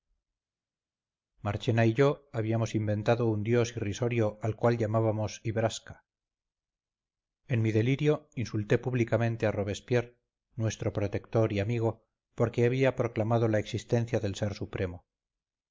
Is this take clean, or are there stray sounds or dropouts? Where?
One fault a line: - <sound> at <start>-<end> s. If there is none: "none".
none